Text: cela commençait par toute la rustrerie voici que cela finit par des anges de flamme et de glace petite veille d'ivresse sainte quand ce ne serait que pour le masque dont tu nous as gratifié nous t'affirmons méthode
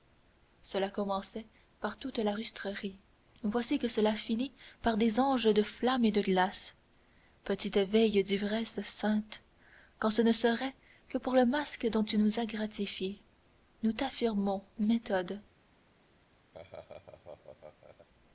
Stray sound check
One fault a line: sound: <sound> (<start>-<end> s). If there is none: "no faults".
sound: laugh (16.5-18.1 s)